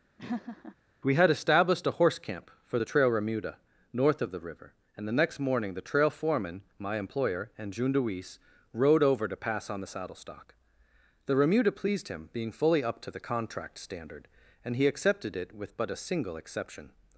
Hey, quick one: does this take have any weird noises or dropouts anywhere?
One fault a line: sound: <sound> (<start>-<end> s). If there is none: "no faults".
sound: laugh (0.2-0.8 s)